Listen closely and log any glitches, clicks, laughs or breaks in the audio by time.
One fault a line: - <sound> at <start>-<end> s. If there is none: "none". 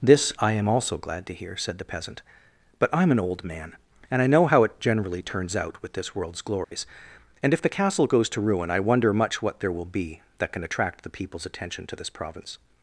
- dropout at 6.6-6.7 s